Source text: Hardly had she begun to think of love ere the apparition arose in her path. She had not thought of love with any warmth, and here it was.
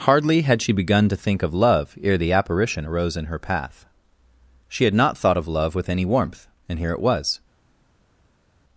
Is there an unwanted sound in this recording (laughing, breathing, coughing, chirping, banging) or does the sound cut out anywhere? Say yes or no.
no